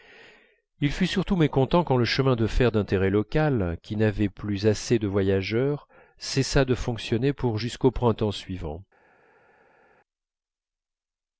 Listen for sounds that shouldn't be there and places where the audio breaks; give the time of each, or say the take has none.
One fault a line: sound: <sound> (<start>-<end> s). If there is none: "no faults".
no faults